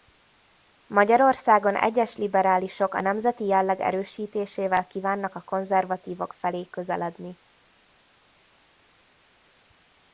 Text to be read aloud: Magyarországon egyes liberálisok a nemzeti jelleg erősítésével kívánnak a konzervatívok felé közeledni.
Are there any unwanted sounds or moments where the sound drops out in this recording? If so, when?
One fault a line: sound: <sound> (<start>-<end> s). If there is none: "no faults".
no faults